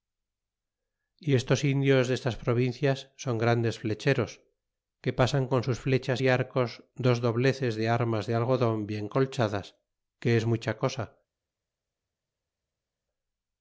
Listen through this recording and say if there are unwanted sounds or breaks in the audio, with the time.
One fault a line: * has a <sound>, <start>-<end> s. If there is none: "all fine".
all fine